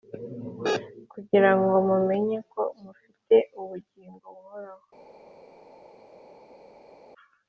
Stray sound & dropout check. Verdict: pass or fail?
pass